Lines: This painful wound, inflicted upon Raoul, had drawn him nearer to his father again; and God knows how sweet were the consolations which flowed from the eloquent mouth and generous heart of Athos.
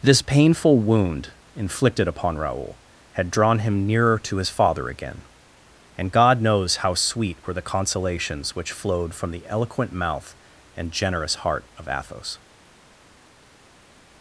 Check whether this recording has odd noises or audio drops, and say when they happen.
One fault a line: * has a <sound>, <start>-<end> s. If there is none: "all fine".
all fine